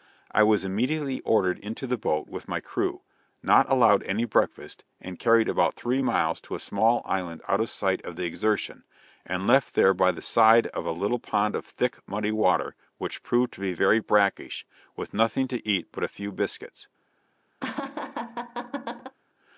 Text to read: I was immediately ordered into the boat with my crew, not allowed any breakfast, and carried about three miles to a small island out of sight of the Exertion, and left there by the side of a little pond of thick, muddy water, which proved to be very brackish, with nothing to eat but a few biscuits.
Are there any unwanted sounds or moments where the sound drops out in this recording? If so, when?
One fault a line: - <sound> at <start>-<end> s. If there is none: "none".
- laugh at 17.6-19.2 s